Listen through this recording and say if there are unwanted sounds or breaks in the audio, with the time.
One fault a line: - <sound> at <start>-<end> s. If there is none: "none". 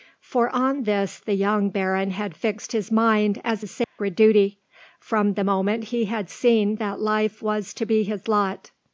- dropout at 3.8-4.0 s